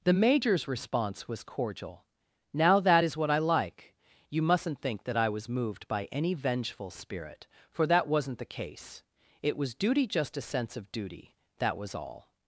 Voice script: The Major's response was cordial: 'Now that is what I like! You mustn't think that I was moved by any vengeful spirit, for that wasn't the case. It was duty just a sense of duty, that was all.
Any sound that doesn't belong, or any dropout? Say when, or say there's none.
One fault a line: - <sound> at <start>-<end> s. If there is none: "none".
none